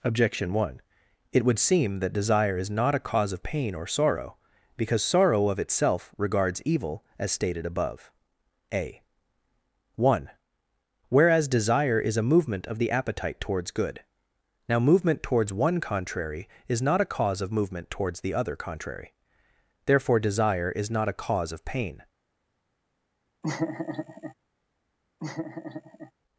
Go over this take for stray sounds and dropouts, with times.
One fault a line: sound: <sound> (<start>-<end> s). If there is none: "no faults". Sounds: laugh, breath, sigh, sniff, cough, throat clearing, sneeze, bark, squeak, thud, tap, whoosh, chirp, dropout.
sound: laugh (23.4-24.3 s)
sound: laugh (25.2-26.1 s)